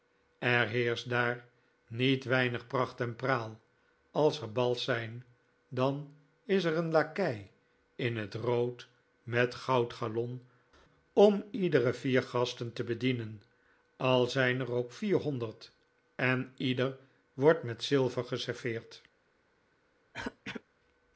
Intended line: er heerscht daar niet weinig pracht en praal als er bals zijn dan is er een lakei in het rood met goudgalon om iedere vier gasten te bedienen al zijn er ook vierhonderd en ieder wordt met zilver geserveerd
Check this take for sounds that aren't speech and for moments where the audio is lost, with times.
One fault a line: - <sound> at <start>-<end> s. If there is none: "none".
- throat clearing at 20.1-20.6 s